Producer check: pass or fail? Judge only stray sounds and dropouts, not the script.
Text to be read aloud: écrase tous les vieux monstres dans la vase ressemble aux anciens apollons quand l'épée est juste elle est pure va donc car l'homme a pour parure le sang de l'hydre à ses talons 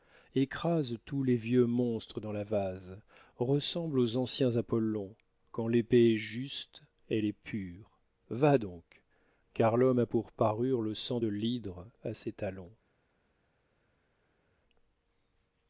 pass